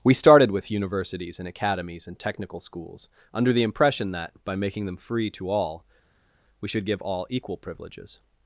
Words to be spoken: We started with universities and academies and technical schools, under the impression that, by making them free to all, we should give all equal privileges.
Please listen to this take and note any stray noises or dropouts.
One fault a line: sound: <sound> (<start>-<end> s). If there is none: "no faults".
no faults